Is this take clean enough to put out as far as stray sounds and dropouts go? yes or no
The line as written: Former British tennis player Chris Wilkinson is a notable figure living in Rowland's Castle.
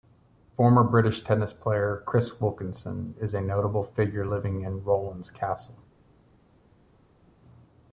yes